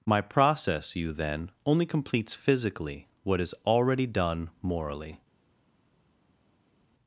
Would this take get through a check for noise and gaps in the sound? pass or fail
pass